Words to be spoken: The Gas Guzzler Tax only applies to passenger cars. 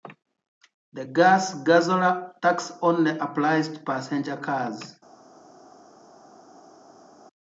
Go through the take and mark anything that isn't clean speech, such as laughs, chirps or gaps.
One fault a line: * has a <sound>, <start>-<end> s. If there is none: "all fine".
all fine